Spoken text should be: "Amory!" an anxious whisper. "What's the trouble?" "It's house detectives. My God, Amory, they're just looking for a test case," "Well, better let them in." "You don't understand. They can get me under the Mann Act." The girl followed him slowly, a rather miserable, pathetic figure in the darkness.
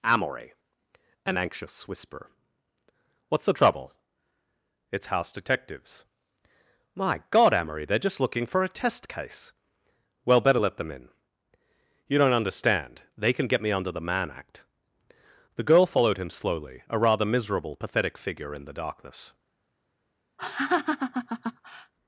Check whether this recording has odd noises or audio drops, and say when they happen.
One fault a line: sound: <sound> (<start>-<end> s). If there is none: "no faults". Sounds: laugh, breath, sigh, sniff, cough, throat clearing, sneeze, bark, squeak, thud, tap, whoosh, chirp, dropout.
sound: laugh (20.4-21.9 s)